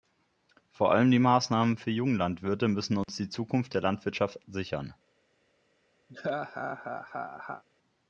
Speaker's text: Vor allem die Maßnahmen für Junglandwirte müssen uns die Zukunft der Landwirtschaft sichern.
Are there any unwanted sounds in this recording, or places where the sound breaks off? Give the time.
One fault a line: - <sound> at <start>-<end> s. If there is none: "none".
- dropout at 3.0-3.1 s
- laugh at 6.1-7.6 s